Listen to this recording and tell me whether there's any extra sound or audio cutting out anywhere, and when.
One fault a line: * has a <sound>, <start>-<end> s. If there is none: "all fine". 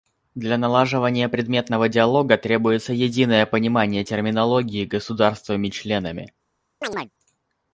* has a chirp, 6.8-7.1 s